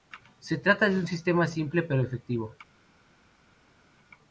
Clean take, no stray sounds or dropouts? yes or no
yes